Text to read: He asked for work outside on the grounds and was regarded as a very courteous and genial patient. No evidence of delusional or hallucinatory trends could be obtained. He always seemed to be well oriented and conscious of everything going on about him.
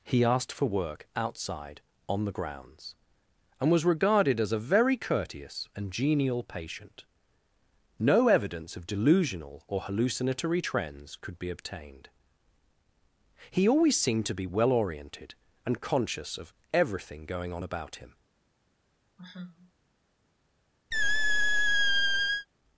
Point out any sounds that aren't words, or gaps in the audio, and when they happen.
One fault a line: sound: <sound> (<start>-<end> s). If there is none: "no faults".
sound: sigh (19.2-19.7 s)
sound: squeak (20.9-22.5 s)